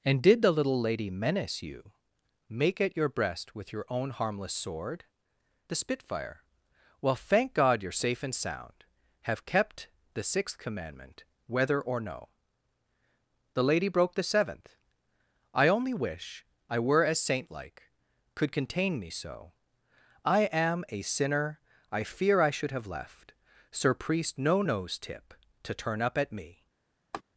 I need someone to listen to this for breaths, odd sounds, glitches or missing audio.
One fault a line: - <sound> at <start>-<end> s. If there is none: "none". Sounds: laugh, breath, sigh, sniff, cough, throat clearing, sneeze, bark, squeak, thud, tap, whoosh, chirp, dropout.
- laugh at 27.1-27.2 s